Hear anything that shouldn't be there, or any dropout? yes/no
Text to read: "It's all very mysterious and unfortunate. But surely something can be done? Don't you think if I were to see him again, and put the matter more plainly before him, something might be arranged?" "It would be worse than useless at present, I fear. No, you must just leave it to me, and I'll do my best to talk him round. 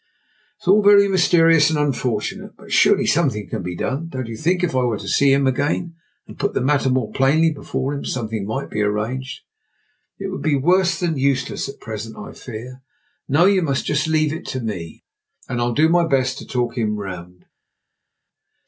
no